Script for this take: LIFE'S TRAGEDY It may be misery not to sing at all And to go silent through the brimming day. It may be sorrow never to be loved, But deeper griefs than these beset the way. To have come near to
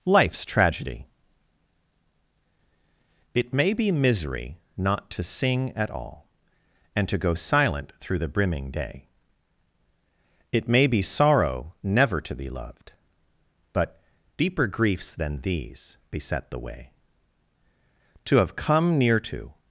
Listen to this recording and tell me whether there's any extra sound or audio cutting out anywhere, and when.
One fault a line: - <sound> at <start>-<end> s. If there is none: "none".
none